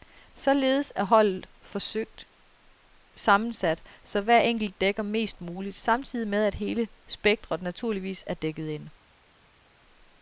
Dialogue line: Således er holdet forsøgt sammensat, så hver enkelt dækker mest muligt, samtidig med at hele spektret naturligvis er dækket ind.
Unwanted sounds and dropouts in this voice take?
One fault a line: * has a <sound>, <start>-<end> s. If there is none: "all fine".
all fine